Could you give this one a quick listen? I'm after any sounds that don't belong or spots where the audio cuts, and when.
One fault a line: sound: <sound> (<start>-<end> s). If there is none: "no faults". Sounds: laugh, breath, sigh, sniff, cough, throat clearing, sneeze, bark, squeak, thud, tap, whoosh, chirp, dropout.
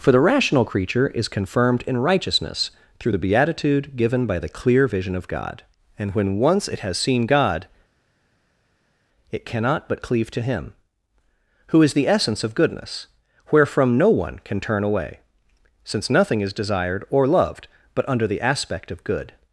no faults